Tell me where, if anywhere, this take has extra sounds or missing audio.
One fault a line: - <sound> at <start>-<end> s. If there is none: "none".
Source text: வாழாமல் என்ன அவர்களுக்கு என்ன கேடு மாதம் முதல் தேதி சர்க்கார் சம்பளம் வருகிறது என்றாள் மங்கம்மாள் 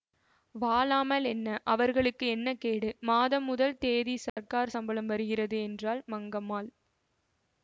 - dropout at 4.3-4.4 s